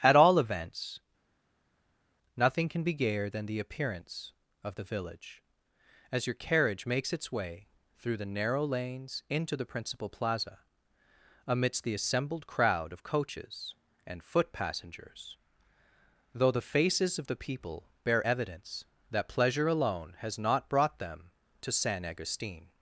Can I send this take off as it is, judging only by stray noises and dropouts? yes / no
yes